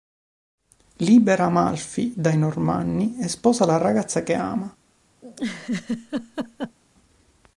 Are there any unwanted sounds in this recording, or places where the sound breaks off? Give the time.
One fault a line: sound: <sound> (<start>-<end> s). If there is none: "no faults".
sound: laugh (5.2-6.8 s)